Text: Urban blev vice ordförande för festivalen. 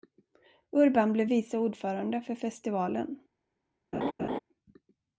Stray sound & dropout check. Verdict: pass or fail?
fail